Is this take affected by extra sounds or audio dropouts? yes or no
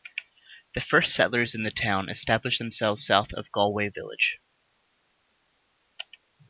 no